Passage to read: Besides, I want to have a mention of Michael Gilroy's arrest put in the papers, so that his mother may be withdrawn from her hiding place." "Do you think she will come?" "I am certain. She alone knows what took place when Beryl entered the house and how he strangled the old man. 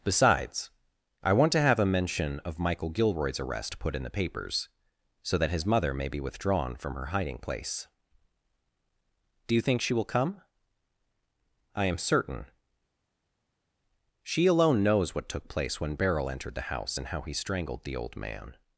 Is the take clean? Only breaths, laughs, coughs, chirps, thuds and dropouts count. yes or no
yes